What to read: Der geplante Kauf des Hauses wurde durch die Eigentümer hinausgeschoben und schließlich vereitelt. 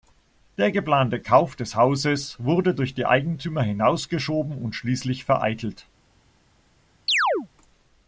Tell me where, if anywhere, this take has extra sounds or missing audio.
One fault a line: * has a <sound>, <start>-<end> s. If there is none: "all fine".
* has a chirp, 7.1-7.5 s